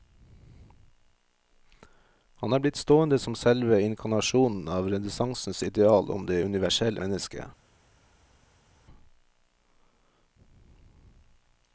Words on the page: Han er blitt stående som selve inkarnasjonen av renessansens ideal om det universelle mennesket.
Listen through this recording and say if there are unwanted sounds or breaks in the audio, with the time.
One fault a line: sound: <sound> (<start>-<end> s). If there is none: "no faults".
no faults